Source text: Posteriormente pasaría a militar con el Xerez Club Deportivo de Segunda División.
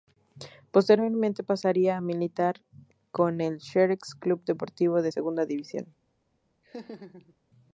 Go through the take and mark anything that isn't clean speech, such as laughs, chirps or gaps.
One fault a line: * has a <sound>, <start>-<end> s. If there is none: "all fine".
* has a laugh, 6.6-7.4 s